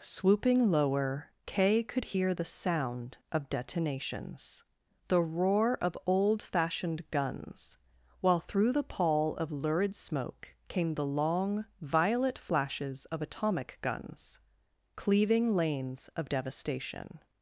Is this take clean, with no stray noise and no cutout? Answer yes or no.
yes